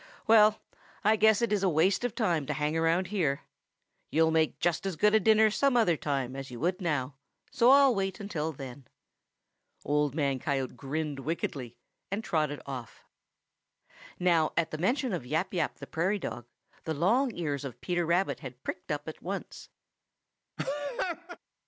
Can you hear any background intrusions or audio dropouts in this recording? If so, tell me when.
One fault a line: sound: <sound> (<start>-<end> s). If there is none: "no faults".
sound: laugh (20.6-21.4 s)